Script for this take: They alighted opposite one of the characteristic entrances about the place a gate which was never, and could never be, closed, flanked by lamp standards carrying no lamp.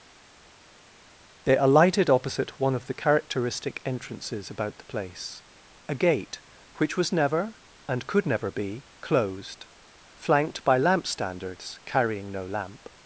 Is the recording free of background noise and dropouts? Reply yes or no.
yes